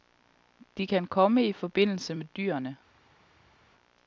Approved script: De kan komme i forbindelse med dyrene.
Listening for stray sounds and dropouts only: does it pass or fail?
pass